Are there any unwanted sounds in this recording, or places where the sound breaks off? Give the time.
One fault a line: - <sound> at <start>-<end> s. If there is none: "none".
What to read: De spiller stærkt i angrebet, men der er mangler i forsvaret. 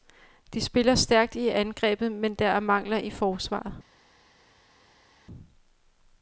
none